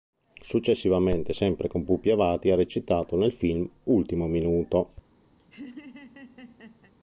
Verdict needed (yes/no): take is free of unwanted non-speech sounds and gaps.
no